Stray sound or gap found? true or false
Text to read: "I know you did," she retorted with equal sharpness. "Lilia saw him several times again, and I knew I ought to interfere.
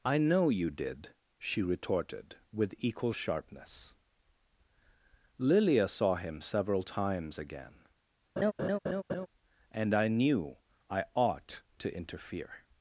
true